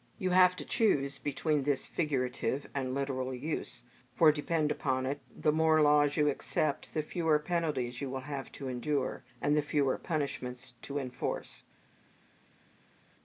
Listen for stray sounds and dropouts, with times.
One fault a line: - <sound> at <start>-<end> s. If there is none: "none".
none